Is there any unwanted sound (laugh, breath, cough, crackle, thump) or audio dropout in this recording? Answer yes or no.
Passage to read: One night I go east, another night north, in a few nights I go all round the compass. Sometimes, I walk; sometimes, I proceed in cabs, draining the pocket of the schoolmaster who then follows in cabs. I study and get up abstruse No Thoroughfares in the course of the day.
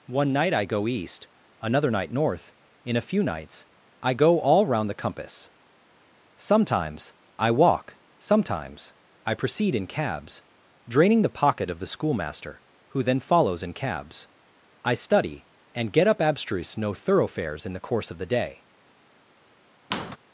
yes